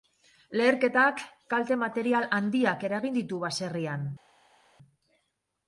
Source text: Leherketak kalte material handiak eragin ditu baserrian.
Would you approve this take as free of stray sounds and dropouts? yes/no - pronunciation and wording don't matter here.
yes